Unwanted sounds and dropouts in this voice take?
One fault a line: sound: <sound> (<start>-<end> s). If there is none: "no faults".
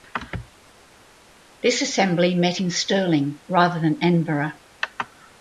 no faults